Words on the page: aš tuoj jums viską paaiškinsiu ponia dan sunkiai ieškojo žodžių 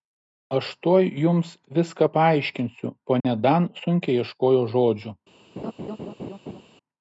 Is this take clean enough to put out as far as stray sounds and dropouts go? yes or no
no